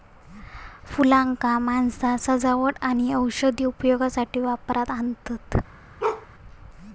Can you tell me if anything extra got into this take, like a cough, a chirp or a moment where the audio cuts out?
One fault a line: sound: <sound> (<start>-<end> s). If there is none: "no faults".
sound: bark (6.0-6.3 s)